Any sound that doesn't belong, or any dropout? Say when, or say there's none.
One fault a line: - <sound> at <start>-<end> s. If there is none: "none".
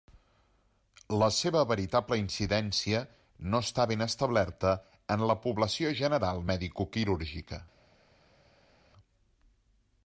none